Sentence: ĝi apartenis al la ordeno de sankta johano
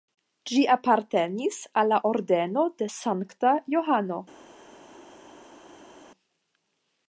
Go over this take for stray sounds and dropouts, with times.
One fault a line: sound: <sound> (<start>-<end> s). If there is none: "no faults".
no faults